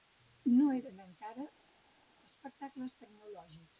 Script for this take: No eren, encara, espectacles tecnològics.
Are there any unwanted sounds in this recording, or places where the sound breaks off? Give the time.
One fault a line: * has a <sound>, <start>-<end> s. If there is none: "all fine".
all fine